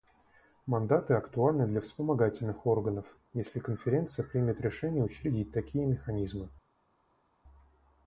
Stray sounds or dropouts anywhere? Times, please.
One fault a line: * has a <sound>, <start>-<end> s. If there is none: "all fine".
all fine